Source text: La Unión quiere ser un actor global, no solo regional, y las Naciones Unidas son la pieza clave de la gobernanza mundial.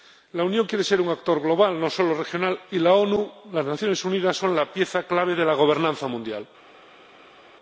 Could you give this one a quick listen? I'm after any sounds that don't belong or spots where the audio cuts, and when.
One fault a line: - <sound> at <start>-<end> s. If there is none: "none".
none